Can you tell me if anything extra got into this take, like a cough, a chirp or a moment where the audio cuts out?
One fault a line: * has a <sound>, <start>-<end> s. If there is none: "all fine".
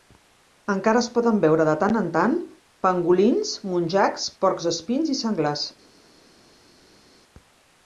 all fine